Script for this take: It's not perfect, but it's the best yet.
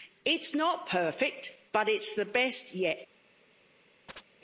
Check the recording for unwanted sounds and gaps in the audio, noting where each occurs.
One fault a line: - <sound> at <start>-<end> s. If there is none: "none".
- chirp at 4.1-4.3 s